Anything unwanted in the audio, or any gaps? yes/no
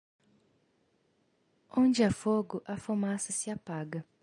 no